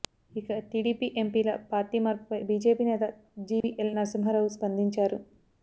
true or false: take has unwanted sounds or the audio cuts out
true